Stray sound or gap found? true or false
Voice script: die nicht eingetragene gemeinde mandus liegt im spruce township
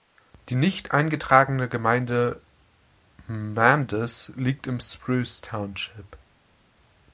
false